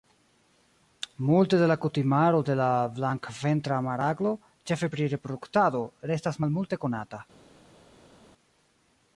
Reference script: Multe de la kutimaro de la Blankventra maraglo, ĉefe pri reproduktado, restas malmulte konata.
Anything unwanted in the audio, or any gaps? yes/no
no